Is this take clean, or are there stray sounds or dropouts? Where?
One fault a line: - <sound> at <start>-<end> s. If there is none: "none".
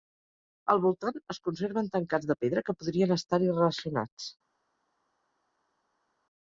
none